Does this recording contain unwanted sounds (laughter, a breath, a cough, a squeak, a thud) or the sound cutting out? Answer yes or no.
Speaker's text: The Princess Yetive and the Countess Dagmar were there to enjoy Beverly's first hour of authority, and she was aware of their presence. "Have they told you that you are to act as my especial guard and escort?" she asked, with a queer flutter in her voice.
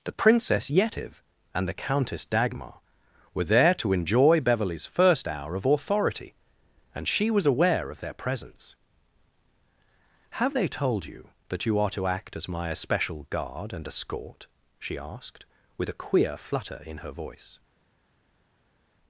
no